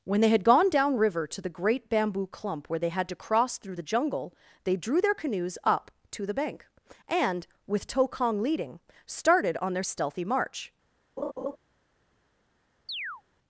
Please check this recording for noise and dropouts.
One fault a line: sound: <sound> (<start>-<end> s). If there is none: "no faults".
sound: laugh (11.2-11.6 s)
sound: chirp (12.9-13.2 s)